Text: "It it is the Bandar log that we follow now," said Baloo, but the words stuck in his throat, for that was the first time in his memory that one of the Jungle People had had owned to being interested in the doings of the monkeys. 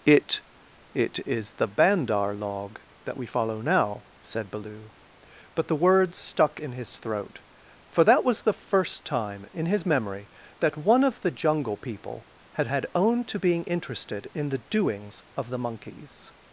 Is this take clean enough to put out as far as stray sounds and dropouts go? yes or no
yes